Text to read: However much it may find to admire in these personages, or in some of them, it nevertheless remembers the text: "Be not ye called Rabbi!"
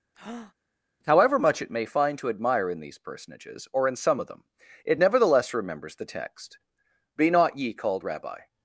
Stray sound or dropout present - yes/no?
yes